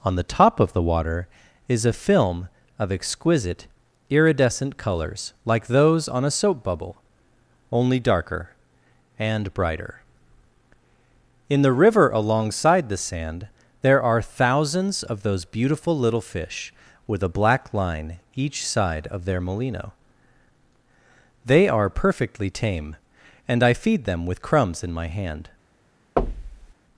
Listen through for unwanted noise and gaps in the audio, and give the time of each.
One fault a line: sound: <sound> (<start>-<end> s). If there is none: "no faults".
sound: thud (26.2-26.7 s)